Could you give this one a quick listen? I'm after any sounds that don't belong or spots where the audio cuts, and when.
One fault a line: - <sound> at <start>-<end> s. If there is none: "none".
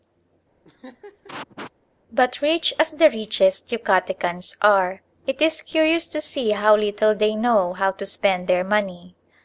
- laugh at 0.6-1.7 s